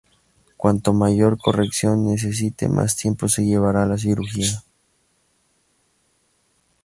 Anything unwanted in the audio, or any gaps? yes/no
no